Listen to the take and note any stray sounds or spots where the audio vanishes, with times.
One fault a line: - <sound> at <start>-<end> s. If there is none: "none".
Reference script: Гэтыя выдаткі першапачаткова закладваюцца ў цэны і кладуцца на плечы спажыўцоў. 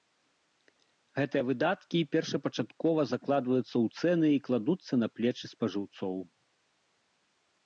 none